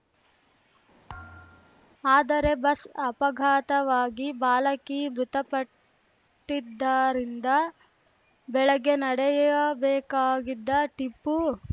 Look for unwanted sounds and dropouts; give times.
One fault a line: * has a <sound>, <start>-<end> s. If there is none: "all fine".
* has a thud, 1.1-1.9 s